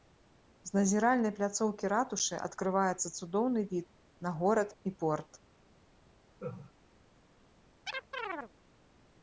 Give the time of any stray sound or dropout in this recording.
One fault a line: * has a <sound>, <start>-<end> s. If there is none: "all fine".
* has a laugh, 6.4-6.7 s
* has a chirp, 7.9-8.5 s